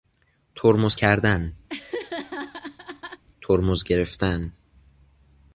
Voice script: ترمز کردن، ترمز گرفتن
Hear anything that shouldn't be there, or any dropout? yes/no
yes